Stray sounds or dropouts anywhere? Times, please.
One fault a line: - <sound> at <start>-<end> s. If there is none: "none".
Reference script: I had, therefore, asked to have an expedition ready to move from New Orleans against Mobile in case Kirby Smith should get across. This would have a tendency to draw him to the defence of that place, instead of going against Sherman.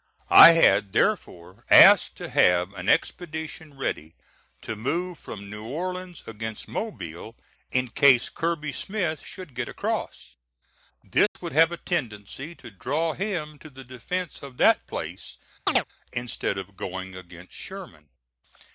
- dropout at 11.3-11.4 s
- chirp at 15.7-15.8 s